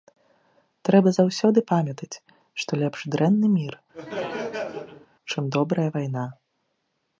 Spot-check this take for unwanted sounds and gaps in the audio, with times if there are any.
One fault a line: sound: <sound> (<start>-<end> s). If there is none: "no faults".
sound: laugh (3.9-5.1 s)